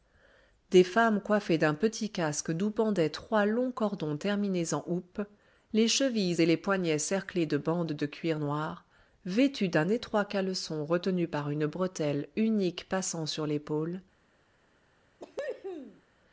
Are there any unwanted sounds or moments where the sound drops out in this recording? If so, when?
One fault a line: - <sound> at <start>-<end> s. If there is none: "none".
- cough at 15.2-16.0 s